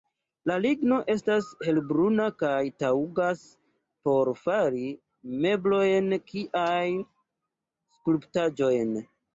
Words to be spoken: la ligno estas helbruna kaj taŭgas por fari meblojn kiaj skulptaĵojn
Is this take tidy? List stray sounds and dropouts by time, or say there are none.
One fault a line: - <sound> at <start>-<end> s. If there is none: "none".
none